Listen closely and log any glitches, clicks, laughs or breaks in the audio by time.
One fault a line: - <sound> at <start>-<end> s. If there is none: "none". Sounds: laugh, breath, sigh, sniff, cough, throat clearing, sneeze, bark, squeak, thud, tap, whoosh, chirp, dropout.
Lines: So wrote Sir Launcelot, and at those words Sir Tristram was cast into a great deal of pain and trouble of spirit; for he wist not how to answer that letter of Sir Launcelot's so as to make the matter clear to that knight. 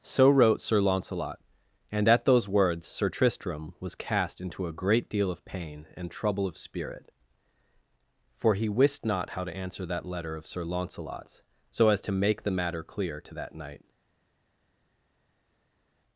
none